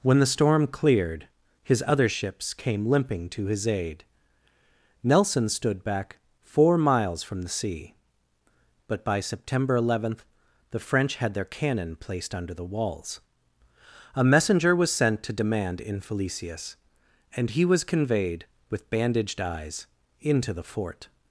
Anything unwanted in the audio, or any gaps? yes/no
no